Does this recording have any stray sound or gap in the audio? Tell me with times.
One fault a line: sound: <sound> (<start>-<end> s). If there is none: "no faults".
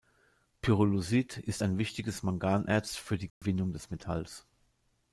sound: dropout (3.3-3.4 s)